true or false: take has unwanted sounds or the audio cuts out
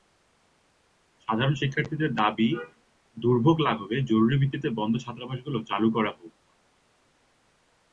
false